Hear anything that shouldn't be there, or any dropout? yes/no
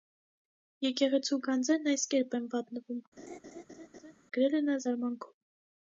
yes